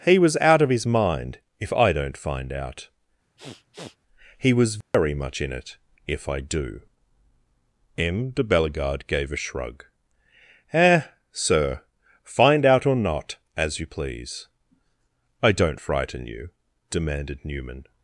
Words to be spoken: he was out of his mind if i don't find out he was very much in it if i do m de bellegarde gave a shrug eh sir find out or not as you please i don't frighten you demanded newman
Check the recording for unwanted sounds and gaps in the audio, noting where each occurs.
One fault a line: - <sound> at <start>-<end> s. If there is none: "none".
- sniff at 3.4-4.0 s
- dropout at 4.8-4.9 s